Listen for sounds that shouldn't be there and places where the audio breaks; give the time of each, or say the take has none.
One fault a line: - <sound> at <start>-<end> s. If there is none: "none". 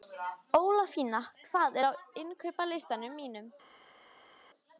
none